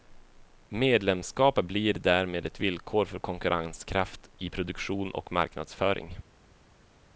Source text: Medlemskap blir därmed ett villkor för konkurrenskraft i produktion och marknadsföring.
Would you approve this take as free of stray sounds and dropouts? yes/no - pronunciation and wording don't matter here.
yes